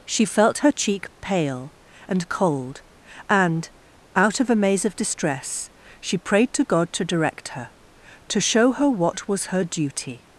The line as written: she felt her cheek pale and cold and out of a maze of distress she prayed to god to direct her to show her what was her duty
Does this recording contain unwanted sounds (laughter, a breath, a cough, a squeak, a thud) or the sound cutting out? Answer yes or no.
no